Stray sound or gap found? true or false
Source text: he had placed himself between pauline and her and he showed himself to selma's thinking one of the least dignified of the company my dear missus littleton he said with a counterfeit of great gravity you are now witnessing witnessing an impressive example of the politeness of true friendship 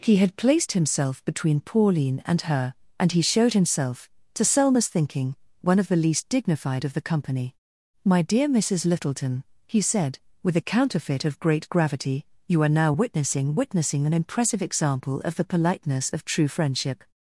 false